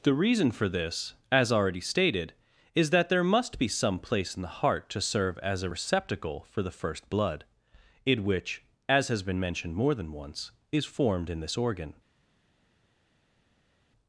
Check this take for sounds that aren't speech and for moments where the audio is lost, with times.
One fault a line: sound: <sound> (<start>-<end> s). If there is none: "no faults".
no faults